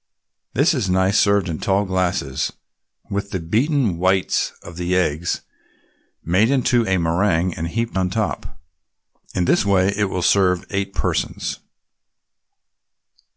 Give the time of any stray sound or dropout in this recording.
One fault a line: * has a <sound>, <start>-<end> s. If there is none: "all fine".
all fine